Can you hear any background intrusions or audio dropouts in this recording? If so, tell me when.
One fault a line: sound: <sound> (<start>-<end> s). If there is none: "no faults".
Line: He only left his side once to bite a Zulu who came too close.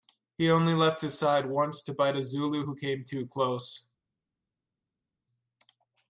no faults